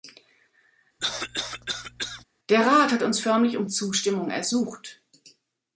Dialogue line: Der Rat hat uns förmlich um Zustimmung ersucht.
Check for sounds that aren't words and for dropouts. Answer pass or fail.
fail